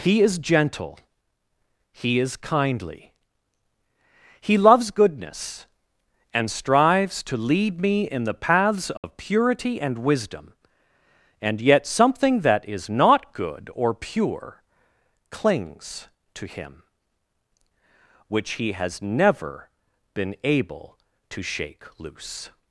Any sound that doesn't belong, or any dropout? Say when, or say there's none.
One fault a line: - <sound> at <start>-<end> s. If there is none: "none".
- dropout at 9.0-9.0 s